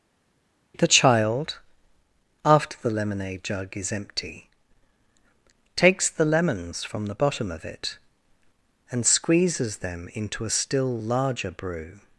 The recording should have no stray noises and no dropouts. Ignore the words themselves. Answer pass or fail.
pass